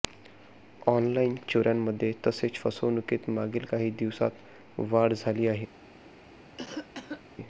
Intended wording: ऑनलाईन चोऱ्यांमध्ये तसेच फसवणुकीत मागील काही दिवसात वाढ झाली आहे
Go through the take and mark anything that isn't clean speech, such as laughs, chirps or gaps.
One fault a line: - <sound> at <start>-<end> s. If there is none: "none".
- cough at 6.6-7.2 s